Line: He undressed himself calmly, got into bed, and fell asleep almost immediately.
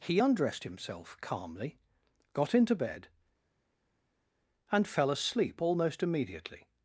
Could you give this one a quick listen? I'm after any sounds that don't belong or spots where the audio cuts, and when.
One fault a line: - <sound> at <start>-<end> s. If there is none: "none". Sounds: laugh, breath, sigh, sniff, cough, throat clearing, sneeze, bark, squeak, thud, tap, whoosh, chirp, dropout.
none